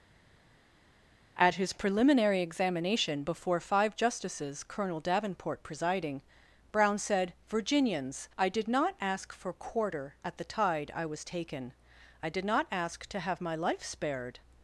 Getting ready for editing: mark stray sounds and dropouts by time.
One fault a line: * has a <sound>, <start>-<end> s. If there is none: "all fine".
all fine